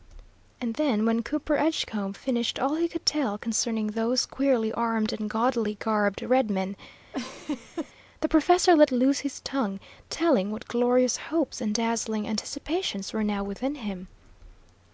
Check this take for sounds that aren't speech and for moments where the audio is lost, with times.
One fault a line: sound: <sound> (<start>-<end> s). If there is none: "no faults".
sound: laugh (7.1-7.9 s)